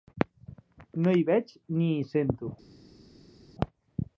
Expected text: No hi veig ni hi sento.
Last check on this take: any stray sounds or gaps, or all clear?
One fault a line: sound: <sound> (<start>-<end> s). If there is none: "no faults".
no faults